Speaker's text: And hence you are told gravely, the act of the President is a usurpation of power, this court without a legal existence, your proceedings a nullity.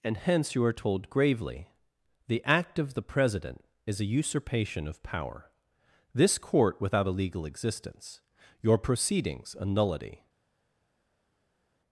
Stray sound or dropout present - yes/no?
no